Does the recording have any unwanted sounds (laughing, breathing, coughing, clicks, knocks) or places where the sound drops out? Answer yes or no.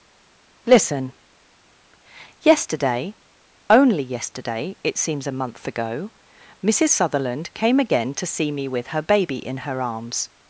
no